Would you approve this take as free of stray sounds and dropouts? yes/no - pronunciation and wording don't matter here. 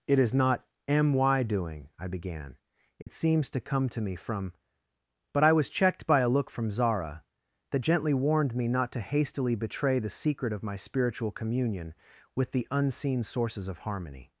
no